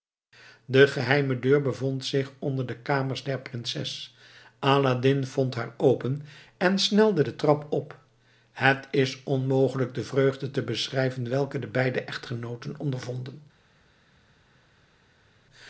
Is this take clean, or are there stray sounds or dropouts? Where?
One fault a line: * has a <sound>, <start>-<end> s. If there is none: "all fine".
all fine